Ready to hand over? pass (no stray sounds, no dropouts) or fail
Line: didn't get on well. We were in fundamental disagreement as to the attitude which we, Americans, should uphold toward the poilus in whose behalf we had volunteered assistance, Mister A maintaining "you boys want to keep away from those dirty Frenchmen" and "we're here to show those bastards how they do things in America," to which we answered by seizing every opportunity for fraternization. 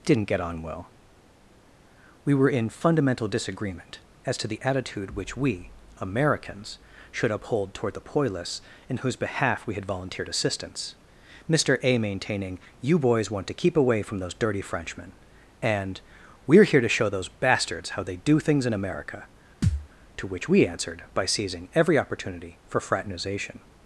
fail